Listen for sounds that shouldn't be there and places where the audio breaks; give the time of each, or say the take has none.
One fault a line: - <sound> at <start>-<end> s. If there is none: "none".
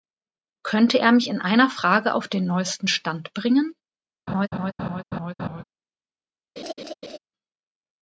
- laugh at 4.3-5.6 s
- laugh at 6.6-7.2 s